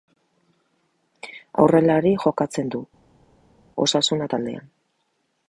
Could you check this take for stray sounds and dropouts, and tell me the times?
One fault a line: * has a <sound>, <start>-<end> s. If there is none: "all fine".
all fine